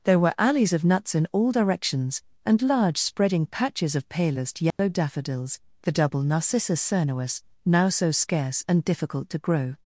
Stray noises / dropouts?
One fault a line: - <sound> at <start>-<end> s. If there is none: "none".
- dropout at 4.7-4.8 s